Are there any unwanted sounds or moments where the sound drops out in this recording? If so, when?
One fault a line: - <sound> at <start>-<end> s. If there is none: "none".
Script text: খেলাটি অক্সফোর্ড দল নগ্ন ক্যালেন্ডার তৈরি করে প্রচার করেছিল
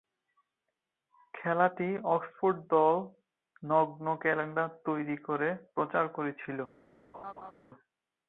- laugh at 7.1-7.5 s